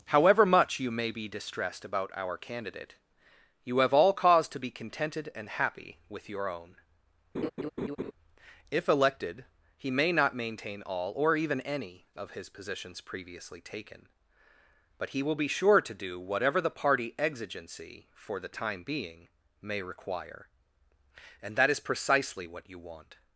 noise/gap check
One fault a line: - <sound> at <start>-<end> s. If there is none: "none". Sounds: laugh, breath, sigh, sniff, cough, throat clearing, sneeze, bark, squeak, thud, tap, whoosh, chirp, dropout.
- laugh at 7.3-8.1 s